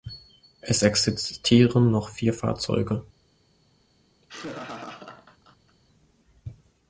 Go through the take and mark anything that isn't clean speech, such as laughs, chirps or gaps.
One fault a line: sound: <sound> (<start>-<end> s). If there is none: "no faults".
sound: laugh (4.2-5.8 s)